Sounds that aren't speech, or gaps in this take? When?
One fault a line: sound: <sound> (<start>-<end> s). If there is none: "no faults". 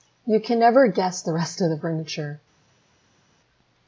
no faults